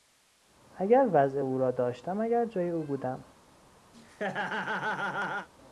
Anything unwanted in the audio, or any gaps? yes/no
yes